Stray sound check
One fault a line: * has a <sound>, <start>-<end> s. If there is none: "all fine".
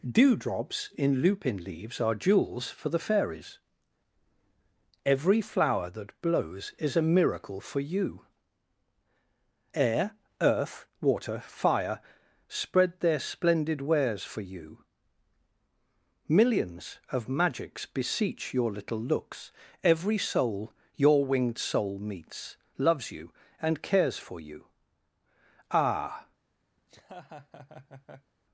* has a laugh, 26.8-28.3 s